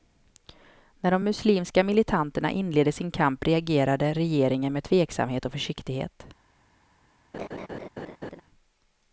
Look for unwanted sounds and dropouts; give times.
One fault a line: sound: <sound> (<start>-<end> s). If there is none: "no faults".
sound: laugh (7.3-8.4 s)